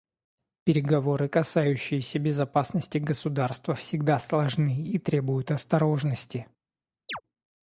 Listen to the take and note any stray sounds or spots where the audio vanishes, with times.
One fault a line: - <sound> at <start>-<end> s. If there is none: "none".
- chirp at 7.1-7.2 s